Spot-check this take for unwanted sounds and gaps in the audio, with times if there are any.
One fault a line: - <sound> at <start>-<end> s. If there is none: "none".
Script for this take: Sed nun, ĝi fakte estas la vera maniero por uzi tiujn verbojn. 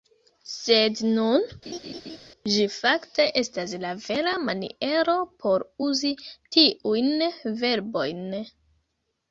- laugh at 1.7-2.2 s